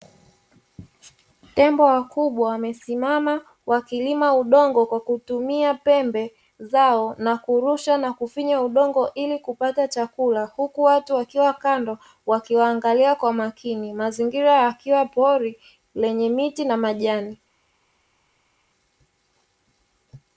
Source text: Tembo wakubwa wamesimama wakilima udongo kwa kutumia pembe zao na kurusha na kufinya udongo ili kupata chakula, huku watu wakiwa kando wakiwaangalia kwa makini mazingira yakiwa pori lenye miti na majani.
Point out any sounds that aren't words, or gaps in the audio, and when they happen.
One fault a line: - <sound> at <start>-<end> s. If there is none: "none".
none